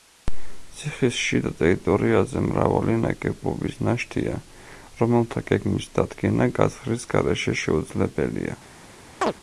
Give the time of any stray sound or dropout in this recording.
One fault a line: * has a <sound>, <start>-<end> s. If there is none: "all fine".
* has a chirp, 9.2-9.3 s